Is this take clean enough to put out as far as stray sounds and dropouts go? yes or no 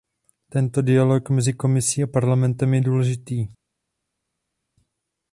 yes